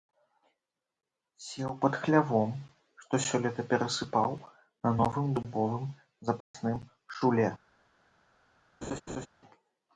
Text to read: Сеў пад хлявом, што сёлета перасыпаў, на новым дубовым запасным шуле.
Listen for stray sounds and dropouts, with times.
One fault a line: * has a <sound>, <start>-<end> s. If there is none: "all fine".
* has a dropout, 6.4-6.5 s
* has a laugh, 8.8-9.3 s